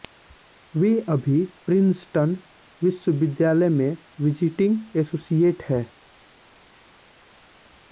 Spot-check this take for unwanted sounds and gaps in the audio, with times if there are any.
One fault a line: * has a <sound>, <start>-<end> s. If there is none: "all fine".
all fine